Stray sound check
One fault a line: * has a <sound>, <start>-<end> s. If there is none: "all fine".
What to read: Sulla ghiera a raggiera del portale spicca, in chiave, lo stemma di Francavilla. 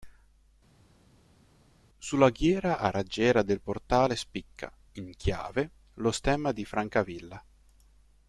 all fine